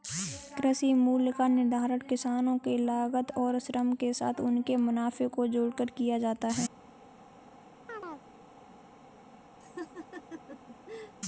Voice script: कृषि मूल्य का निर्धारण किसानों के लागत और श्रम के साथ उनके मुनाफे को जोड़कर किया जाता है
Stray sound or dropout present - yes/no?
yes